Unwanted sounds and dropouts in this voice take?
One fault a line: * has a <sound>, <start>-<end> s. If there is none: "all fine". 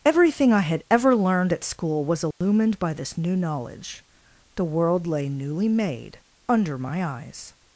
* has a dropout, 2.3-2.4 s